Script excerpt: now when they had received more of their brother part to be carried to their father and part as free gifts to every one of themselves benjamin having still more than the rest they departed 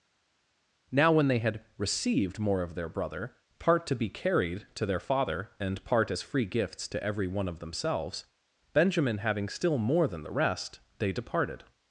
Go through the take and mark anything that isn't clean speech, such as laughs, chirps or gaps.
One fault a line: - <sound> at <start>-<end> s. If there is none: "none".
none